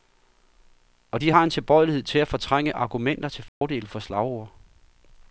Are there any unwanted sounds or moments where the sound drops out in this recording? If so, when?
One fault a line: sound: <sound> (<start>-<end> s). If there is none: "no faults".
sound: dropout (3.5-3.6 s)